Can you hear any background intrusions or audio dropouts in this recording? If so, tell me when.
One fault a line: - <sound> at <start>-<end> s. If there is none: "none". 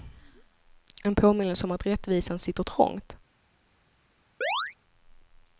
- chirp at 4.4-4.7 s